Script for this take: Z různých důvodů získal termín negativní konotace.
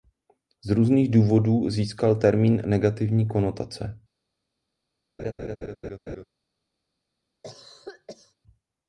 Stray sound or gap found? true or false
true